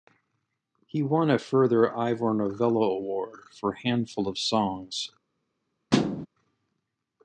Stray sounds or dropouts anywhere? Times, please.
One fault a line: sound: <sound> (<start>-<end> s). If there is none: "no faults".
sound: thud (5.9-6.3 s)